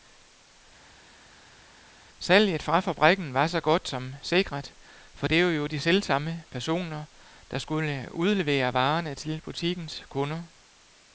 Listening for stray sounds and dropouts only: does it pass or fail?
pass